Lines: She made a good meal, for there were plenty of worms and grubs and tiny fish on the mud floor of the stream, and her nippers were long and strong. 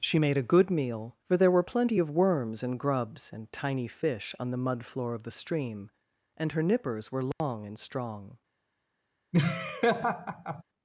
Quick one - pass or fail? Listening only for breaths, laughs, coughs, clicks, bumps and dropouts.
fail